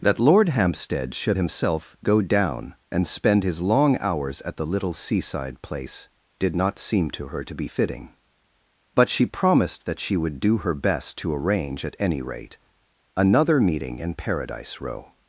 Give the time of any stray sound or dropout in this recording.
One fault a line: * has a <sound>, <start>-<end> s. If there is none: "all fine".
all fine